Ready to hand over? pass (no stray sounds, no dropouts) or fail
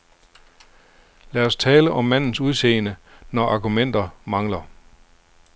pass